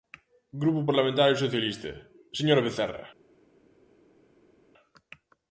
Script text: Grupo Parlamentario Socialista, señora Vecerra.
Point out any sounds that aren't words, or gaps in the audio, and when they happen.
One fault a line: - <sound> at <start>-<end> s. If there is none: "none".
none